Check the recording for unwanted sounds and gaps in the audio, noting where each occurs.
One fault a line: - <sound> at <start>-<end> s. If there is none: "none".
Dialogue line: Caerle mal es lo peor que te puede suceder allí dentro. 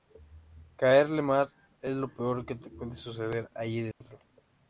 - dropout at 3.9-4.0 s